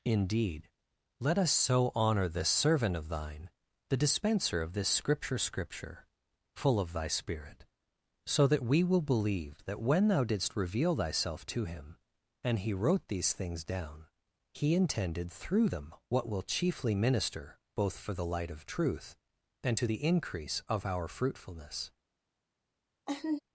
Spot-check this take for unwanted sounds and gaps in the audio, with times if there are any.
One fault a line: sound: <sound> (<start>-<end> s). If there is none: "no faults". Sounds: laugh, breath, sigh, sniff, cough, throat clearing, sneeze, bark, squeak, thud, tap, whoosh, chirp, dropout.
sound: laugh (23.1-23.4 s)